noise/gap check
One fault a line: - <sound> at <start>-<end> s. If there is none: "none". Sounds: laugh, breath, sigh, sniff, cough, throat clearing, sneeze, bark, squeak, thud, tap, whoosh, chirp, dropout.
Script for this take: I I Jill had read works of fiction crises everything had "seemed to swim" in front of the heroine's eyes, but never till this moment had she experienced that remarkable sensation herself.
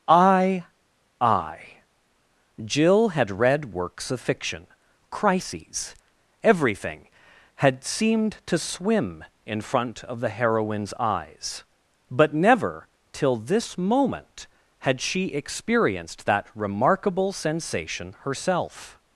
none